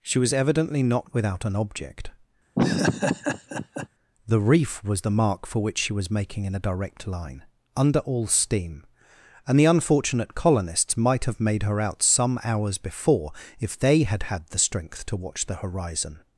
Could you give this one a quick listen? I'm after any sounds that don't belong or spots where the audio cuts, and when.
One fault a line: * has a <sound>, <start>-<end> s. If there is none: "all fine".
* has a laugh, 2.6-3.9 s